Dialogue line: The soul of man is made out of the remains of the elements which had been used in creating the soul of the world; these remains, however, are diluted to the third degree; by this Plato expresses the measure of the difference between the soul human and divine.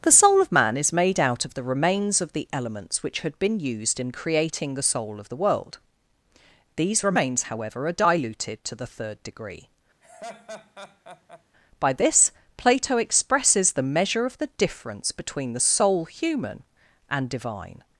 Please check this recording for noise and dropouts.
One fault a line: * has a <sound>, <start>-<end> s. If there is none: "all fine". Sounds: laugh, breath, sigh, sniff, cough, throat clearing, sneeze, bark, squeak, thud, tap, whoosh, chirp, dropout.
* has a laugh, 10.0-11.4 s